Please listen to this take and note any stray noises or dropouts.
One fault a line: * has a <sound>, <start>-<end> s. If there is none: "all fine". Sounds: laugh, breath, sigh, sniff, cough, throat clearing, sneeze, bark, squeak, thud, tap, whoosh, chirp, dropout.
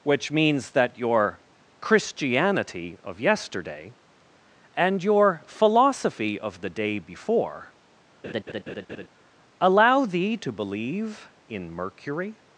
* has a laugh, 8.2-9.1 s